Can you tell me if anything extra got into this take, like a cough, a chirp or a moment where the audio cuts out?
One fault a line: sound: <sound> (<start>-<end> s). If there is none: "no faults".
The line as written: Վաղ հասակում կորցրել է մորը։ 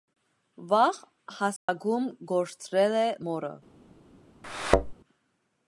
sound: dropout (1.6-1.7 s)
sound: thud (4.4-4.9 s)